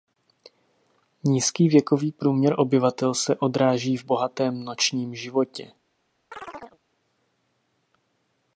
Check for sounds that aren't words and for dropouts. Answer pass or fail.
fail